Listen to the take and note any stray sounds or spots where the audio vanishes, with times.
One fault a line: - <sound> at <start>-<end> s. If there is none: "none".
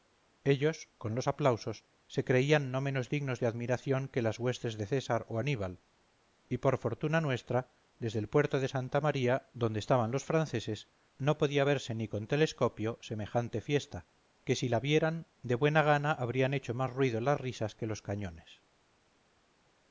none